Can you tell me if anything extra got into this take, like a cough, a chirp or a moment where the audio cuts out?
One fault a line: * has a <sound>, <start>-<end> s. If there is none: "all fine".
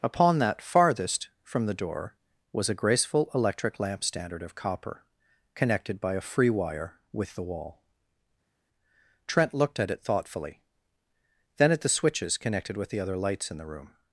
all fine